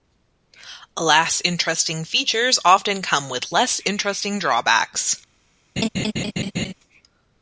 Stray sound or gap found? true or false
true